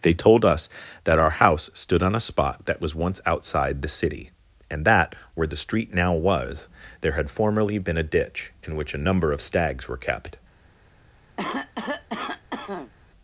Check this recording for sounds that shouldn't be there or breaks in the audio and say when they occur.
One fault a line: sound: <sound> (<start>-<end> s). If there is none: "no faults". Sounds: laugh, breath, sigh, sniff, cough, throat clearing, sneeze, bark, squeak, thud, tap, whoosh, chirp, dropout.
sound: cough (11.4-12.9 s)